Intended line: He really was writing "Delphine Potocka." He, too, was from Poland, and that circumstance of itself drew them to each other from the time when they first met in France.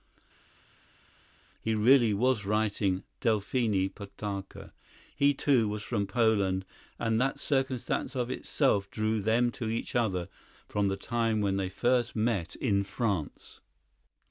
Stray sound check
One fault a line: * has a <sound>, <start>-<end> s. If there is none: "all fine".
all fine